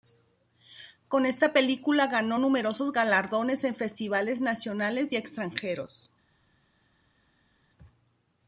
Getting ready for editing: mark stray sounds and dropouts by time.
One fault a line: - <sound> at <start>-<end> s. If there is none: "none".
none